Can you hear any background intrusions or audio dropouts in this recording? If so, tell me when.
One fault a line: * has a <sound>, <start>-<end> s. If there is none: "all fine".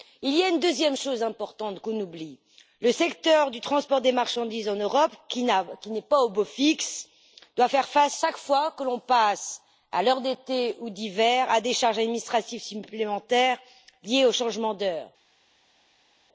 all fine